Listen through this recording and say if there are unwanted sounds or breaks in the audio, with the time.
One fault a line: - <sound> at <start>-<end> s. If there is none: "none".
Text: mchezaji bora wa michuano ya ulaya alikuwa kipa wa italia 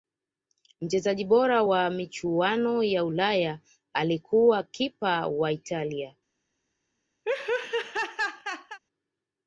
- laugh at 7.2-8.8 s